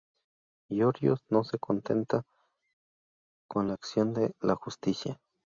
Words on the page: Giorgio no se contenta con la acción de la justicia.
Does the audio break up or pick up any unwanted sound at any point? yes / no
no